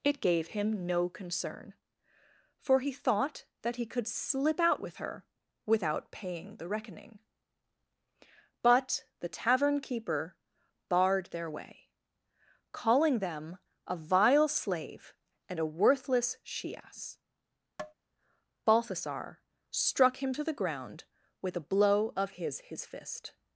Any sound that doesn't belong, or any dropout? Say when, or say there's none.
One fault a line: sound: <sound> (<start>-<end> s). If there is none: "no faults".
sound: tap (17.8-17.9 s)